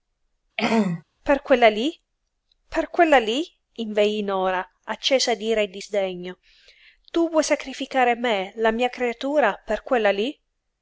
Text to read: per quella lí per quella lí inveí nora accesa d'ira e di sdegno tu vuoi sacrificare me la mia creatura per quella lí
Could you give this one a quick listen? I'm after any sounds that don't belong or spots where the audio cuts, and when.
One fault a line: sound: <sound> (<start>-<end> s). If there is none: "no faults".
sound: throat clearing (0.6-1.0 s)